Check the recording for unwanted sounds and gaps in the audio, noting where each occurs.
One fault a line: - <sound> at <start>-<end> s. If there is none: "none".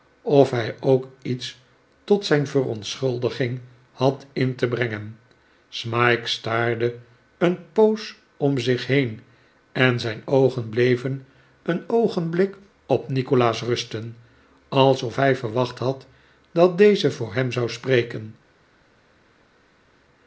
none